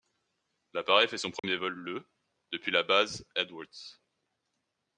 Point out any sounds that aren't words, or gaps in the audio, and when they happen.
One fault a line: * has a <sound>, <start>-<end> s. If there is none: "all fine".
* has a dropout, 1.4-1.4 s